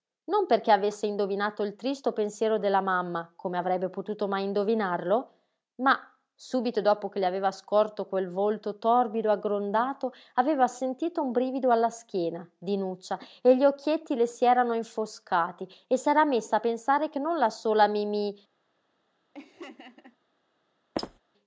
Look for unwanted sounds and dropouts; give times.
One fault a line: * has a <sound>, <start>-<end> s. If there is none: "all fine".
* has a laugh, 19.3-20.2 s
* has a squeak, 21.0-21.2 s